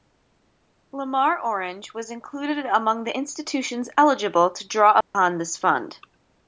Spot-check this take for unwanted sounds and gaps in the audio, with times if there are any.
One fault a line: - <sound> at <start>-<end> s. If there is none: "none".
- dropout at 5.0-5.1 s